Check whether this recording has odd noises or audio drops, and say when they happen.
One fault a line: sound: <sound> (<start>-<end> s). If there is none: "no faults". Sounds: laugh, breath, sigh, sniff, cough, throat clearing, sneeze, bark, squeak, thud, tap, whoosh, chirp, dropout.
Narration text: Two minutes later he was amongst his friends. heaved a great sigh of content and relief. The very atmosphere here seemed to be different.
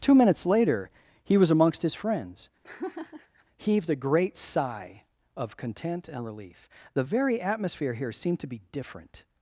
sound: laugh (2.6-3.4 s)